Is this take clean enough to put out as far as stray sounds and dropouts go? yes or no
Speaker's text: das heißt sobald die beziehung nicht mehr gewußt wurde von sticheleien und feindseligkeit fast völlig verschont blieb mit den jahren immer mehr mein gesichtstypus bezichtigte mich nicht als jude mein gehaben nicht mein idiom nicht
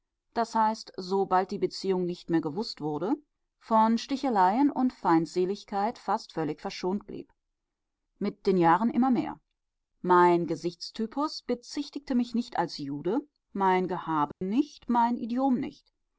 no